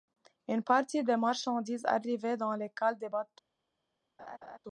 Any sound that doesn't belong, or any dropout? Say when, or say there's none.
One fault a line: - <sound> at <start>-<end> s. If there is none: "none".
- laugh at 4.2-4.6 s